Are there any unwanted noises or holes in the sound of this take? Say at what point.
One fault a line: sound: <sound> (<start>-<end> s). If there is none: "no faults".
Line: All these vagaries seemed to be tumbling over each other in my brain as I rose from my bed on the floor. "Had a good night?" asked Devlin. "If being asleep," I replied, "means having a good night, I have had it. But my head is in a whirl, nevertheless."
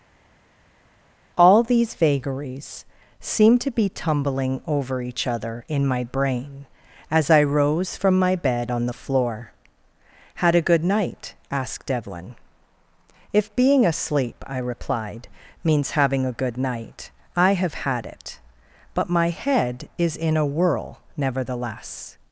no faults